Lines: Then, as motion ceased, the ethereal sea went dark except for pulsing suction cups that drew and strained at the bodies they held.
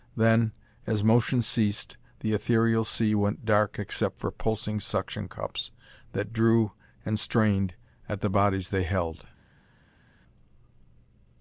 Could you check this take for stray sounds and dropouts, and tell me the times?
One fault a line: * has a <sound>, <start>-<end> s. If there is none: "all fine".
all fine